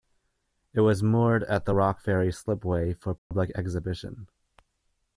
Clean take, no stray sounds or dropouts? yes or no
no